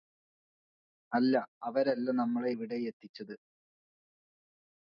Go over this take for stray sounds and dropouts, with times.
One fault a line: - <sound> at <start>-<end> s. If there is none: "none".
none